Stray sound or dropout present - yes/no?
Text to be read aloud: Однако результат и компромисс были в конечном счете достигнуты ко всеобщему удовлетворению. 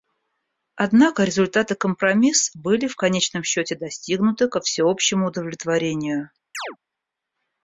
yes